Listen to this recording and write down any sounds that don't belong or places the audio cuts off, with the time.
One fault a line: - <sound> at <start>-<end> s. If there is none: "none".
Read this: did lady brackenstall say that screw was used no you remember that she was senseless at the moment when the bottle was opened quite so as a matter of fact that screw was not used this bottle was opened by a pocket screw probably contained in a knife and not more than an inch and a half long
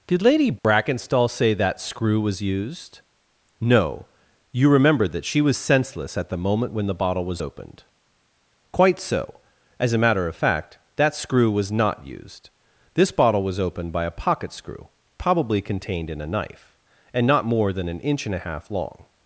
- dropout at 0.6-0.6 s